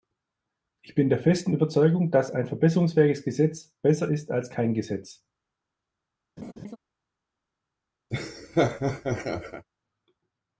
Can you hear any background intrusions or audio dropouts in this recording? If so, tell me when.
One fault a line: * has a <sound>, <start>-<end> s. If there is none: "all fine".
* has a laugh, 6.4-6.8 s
* has a laugh, 8.1-9.7 s